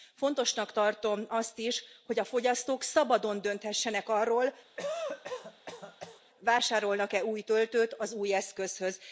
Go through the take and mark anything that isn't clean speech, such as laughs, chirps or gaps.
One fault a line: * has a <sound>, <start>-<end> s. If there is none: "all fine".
* has a cough, 4.8-6.2 s